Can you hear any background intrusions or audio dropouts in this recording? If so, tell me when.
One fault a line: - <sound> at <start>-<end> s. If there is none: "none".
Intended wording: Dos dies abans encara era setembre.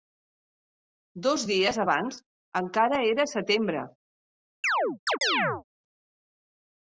- chirp at 4.6-5.6 s